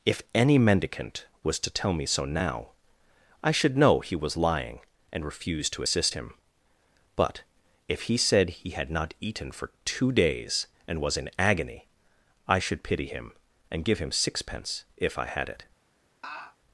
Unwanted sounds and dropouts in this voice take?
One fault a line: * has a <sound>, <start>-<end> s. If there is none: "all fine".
* has a laugh, 16.2-16.6 s